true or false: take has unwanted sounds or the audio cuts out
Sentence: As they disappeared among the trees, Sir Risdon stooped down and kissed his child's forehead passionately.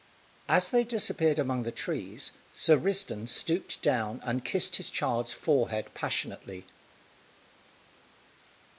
false